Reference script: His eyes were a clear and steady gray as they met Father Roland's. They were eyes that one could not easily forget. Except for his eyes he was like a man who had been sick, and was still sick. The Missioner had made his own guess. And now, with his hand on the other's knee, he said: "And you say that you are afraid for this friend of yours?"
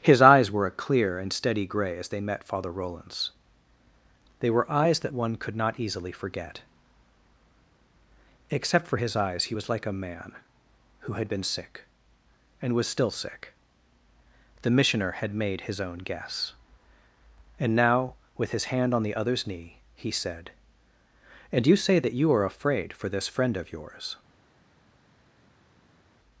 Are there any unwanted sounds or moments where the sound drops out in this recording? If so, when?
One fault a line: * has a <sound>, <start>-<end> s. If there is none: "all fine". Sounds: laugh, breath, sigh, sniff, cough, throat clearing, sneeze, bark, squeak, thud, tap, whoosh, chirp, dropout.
all fine